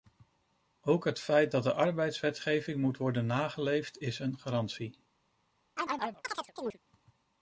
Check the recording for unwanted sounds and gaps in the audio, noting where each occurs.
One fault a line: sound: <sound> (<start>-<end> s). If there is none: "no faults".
sound: chirp (5.8-6.8 s)